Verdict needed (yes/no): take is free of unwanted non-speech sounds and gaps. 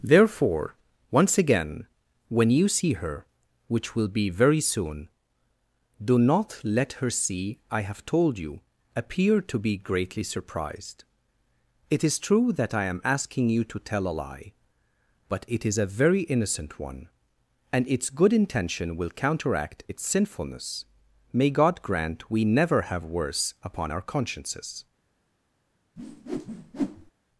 no